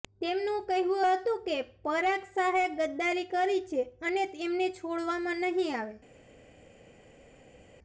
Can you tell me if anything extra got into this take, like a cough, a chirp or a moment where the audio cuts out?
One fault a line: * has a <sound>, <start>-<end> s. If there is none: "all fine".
all fine